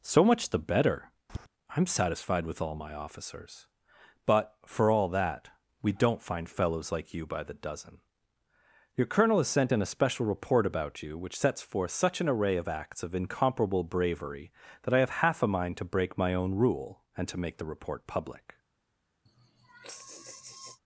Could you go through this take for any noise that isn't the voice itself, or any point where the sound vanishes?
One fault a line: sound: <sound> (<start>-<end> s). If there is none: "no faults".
sound: tap (1.3-1.5 s)
sound: sigh (19.3-20.8 s)